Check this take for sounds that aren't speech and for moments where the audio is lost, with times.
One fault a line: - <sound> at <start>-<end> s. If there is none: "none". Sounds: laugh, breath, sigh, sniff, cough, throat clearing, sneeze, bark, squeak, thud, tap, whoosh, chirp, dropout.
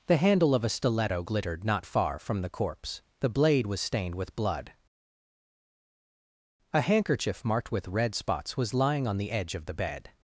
none